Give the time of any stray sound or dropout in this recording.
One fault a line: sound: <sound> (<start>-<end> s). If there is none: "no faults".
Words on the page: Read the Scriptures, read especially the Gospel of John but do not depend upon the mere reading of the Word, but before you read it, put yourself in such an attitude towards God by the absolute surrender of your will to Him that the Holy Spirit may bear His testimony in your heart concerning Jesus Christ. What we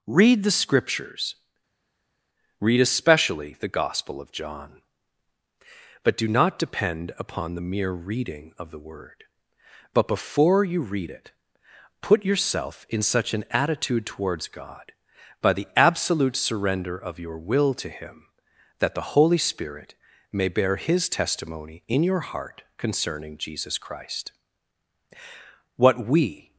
no faults